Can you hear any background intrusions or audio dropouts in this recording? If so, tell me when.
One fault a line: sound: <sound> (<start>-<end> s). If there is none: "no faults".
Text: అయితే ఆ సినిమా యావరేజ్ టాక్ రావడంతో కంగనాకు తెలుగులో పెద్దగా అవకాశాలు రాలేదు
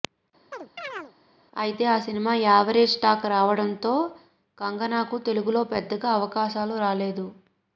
sound: chirp (0.5-1.1 s)